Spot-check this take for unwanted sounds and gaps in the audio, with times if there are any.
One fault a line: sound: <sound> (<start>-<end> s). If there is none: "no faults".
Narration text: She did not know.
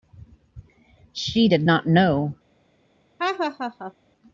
sound: laugh (3.2-3.9 s)